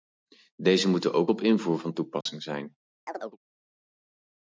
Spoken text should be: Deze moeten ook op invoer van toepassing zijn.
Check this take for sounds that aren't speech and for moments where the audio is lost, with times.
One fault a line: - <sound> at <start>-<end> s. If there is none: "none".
- dropout at 2.2-2.3 s
- chirp at 3.1-3.4 s